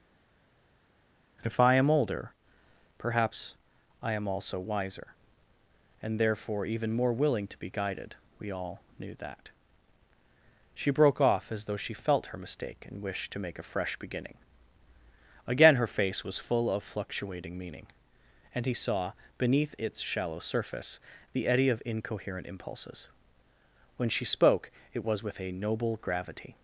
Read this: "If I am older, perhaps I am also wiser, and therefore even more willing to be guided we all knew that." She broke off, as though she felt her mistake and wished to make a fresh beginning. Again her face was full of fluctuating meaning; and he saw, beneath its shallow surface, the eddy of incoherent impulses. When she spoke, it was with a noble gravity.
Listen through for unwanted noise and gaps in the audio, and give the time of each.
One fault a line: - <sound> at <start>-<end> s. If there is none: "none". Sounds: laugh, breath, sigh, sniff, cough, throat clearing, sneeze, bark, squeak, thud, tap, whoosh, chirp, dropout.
none